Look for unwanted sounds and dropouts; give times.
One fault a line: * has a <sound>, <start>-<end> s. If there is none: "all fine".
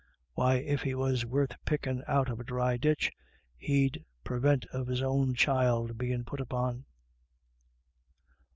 all fine